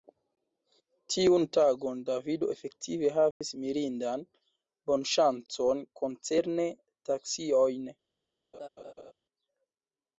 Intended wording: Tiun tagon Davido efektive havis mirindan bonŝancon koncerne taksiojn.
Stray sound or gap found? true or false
true